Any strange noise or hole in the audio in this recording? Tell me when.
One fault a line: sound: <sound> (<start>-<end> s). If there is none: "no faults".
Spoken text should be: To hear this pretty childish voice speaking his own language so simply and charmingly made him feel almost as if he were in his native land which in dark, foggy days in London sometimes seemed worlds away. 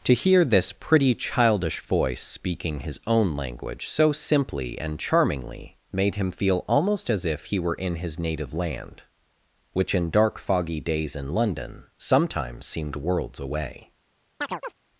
sound: chirp (14.4-14.7 s)